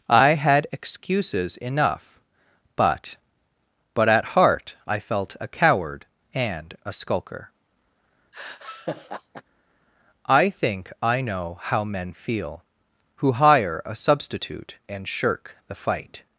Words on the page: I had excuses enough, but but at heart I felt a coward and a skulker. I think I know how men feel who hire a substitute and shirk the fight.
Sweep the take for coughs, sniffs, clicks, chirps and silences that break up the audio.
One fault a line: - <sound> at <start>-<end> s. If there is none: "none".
- laugh at 8.3-9.4 s